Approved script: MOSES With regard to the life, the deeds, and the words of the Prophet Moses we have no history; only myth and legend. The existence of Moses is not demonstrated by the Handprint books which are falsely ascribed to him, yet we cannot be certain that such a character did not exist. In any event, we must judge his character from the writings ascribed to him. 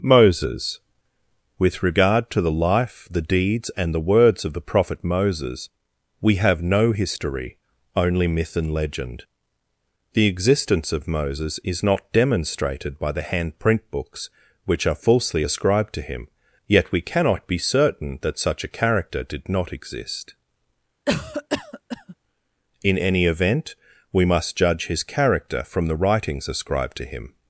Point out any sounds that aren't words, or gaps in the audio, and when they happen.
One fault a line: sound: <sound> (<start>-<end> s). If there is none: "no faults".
sound: cough (21.1-22.2 s)